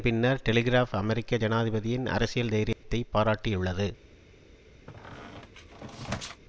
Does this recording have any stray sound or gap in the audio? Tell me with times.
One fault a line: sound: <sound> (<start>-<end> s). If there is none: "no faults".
sound: dropout (2.7-2.8 s)
sound: squeak (4.9-6.4 s)